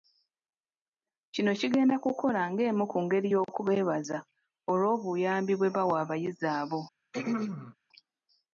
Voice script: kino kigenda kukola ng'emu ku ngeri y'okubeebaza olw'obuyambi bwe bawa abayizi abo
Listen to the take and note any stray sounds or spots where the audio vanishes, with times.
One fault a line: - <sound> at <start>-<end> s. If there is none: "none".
- throat clearing at 7.1-7.8 s